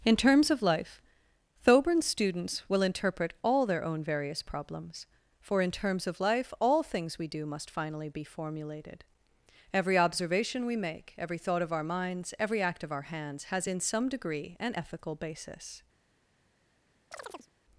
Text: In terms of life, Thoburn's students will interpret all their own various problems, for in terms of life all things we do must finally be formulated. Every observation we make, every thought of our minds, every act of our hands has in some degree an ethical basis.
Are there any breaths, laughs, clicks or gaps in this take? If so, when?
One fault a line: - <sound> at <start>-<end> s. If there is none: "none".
- chirp at 17.1-17.5 s